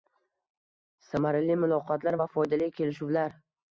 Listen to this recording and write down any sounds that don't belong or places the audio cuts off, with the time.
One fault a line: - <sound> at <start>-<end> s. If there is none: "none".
none